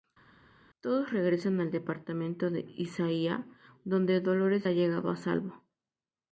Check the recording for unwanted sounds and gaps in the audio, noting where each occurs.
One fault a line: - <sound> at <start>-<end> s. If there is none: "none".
none